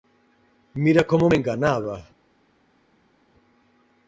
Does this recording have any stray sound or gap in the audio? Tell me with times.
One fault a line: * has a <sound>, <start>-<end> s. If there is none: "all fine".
all fine